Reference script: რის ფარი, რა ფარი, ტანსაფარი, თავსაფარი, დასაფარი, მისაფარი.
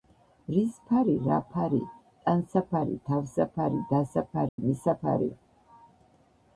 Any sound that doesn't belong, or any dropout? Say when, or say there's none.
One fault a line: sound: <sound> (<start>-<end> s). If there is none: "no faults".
sound: dropout (4.5-4.6 s)